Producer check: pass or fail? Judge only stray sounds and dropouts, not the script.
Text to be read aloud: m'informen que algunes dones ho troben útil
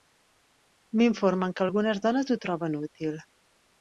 pass